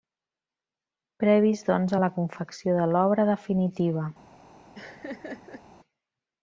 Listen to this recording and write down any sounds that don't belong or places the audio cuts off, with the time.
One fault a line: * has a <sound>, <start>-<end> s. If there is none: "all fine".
* has a laugh, 4.7-5.6 s